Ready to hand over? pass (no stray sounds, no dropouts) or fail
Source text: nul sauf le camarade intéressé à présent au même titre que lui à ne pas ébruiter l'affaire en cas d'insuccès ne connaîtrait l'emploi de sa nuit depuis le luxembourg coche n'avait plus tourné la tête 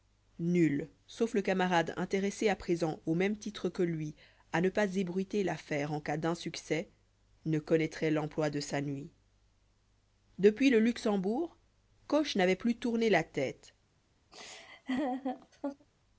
fail